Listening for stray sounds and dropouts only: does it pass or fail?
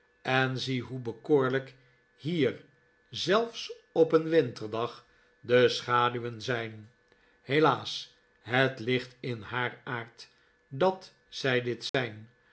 fail